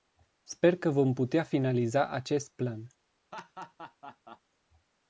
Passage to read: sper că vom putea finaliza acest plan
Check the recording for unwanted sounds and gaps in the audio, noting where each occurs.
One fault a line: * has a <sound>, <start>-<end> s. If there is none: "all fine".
* has a laugh, 3.3-4.4 s